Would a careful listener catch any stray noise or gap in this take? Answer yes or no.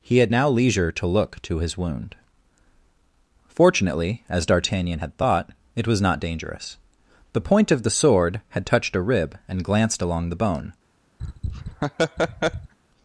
yes